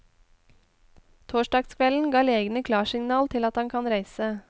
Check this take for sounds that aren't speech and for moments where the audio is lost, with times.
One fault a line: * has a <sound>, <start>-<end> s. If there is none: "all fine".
all fine